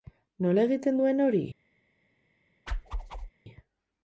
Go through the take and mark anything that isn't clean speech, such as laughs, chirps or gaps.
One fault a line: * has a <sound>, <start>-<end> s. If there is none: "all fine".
* has a whoosh, 2.7-3.3 s